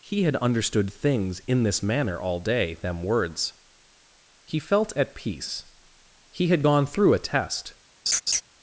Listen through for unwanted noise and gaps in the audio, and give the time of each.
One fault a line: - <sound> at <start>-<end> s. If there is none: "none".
- laugh at 8.1-8.4 s